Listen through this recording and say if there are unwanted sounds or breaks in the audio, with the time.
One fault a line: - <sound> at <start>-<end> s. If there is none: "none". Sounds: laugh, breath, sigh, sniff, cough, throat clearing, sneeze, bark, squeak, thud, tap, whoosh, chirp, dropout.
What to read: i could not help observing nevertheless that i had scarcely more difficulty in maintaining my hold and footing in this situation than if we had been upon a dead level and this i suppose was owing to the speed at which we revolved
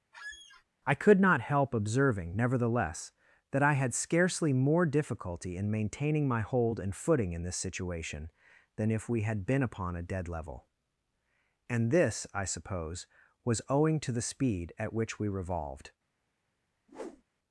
- squeak at 0.1-0.6 s
- whoosh at 16.9-17.2 s